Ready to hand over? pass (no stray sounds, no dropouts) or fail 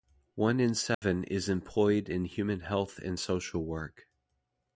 fail